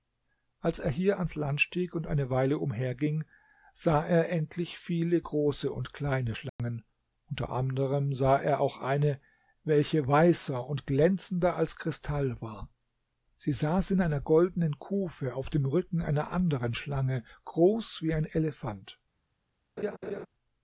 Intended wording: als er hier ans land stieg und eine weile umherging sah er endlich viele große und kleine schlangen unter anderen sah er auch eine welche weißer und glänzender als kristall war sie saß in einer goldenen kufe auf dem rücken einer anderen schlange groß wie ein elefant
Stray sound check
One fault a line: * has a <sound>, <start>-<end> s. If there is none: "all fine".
* has a dropout, 6.5-6.6 s
* has a laugh, 19.8-20.3 s